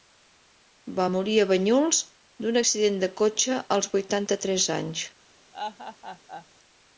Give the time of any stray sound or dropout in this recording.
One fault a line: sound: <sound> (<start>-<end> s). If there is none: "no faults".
sound: laugh (5.5-6.5 s)